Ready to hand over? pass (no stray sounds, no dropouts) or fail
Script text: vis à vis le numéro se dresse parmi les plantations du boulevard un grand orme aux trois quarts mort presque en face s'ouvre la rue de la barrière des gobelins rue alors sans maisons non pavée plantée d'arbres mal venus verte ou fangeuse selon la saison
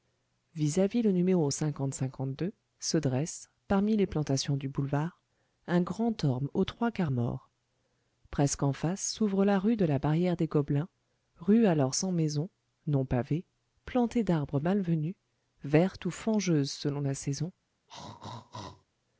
fail